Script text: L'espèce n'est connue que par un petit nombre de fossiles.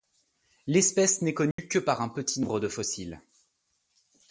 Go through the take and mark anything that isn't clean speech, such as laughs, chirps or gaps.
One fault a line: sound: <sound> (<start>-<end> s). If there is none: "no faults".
sound: dropout (1.5-1.6 s)